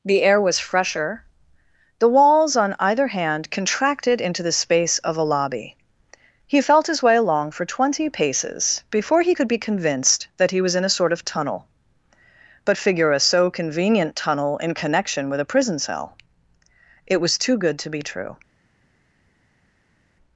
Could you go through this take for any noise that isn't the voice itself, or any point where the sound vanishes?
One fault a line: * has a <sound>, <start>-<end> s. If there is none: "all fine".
all fine